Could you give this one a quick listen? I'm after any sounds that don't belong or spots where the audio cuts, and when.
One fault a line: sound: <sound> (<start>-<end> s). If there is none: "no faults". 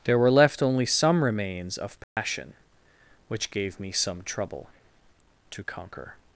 sound: dropout (2.0-2.2 s)